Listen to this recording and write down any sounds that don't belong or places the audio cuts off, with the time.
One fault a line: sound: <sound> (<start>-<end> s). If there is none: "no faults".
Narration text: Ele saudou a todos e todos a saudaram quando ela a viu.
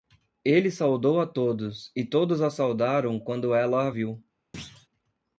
sound: thud (4.5-4.9 s)